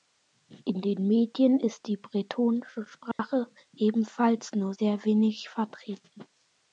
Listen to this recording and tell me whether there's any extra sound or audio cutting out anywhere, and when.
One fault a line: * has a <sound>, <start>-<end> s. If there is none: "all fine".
* has a dropout, 3.1-3.2 s